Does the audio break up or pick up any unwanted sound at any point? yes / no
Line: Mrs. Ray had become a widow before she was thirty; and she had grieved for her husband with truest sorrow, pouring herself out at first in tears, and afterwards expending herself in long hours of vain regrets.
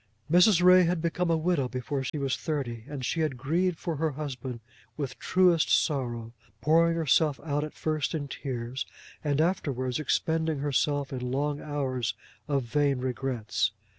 yes